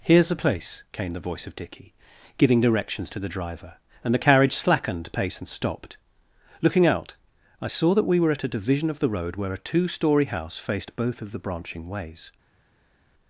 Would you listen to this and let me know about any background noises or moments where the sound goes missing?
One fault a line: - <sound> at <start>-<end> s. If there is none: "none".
none